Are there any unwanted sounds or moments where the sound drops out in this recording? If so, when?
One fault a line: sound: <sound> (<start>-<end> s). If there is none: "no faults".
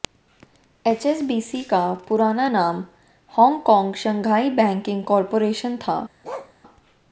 sound: bark (6.2-6.5 s)